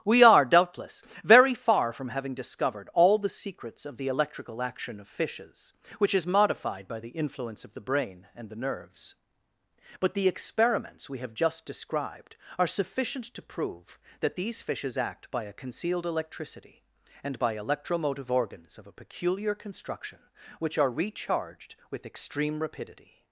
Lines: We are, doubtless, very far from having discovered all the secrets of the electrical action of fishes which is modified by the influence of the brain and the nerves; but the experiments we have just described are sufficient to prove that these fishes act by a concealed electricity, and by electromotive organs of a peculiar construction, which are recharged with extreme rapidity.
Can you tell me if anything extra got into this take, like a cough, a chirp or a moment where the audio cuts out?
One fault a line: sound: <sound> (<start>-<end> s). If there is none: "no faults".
no faults